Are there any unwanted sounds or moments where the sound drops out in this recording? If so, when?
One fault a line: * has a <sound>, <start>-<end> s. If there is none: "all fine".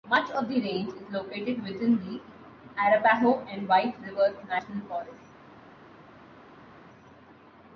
all fine